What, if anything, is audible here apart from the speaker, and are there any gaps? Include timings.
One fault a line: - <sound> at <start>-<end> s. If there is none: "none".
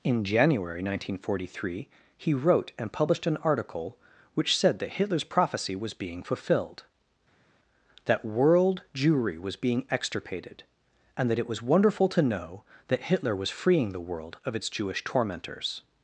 none